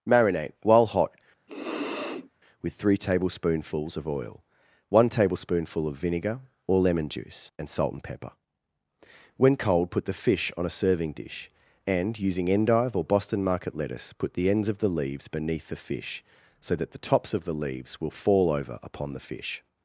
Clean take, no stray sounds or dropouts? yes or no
no